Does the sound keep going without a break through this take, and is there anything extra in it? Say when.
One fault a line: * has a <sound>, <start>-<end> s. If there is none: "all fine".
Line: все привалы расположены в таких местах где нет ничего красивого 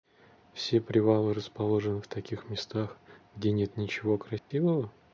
* has a dropout, 4.4-4.5 s